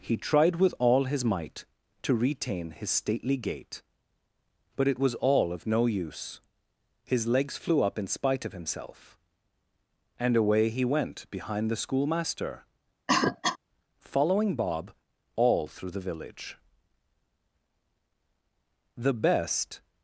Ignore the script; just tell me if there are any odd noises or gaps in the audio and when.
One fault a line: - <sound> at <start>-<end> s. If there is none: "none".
- cough at 13.1-13.6 s